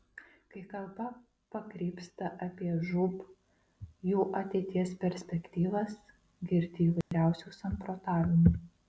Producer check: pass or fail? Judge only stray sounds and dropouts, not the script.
fail